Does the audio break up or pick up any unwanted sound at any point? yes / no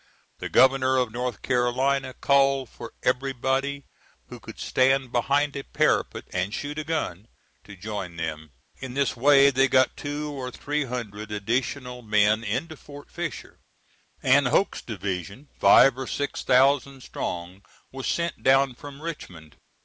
no